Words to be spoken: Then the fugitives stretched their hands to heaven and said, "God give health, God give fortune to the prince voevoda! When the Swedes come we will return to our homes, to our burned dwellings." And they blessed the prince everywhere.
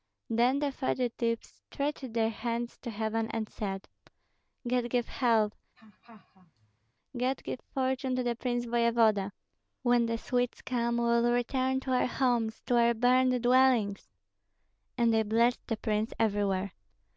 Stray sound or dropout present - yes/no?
yes